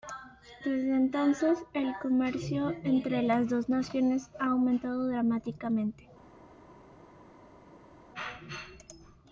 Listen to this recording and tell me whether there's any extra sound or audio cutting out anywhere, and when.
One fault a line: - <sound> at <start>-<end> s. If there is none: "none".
none